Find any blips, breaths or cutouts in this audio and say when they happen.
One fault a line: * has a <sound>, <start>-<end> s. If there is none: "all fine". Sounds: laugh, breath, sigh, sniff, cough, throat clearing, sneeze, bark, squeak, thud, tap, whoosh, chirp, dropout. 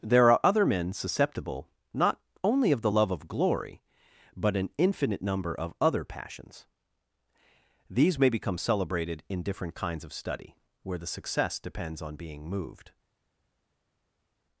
all fine